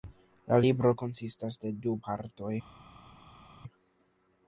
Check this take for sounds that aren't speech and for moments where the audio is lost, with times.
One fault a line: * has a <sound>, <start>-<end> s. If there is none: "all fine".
all fine